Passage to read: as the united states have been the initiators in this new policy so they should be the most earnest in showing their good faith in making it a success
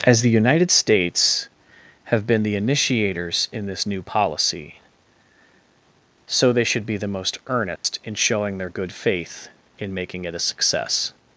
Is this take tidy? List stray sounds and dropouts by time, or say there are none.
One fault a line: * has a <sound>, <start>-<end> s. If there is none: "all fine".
* has a dropout, 7.8-7.8 s